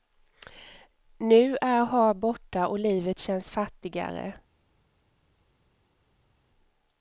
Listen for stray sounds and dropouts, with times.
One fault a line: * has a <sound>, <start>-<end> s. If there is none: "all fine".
all fine